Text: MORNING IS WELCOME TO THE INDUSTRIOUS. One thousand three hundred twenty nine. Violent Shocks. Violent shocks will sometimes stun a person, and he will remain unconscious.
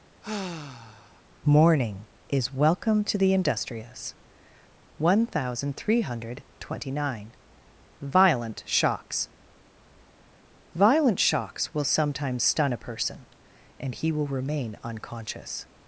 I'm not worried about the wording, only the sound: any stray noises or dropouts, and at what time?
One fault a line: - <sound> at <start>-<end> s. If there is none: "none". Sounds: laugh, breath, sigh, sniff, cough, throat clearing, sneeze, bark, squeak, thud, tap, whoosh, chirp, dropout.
- sigh at 0.2-1.2 s